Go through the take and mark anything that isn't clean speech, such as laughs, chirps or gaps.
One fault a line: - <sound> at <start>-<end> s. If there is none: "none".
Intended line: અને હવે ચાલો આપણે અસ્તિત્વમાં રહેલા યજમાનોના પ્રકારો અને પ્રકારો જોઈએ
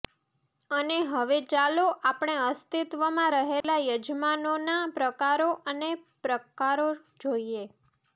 - dropout at 3.6-3.6 s